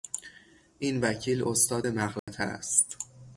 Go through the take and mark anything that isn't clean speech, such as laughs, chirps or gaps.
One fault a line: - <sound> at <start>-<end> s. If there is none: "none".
- dropout at 2.2-2.3 s